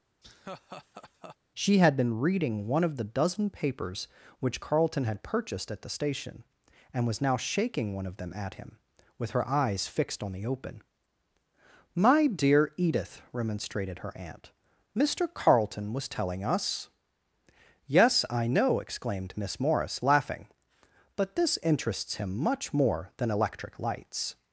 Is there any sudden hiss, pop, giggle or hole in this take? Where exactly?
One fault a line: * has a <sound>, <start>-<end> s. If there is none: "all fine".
* has a laugh, 0.2-1.4 s